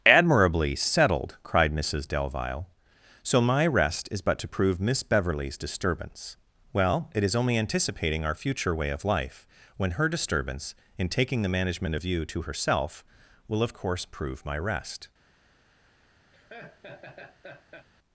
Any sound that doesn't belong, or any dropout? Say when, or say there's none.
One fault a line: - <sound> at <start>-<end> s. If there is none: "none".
- laugh at 16.3-17.9 s